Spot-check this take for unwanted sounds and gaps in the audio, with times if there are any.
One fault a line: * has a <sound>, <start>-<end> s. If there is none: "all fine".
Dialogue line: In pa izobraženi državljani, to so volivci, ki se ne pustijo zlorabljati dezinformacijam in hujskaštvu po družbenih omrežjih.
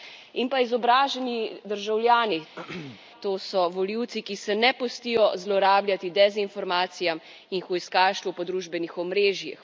* has a throat clearing, 2.6-3.0 s